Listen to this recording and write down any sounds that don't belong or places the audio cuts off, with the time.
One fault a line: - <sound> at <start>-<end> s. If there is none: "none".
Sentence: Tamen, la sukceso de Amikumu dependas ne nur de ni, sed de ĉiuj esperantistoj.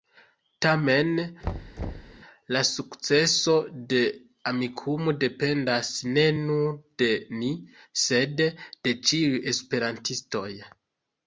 - thud at 1.4-2.2 s